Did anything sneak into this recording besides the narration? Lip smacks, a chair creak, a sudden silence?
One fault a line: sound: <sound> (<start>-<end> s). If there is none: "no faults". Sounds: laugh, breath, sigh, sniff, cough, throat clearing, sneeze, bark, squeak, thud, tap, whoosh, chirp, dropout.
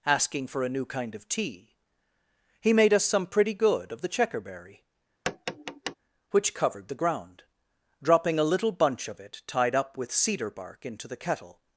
sound: tap (5.3-6.0 s)